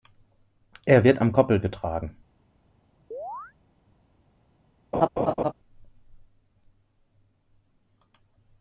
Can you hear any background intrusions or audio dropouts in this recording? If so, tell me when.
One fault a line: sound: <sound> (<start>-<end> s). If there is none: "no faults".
sound: chirp (3.1-3.5 s)
sound: laugh (4.9-5.5 s)